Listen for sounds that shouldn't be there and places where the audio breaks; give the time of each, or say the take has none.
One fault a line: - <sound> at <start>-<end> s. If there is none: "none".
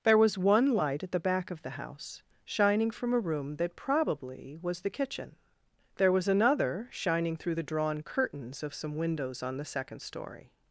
none